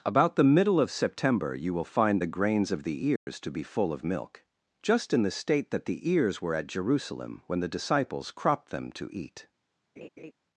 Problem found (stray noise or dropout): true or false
true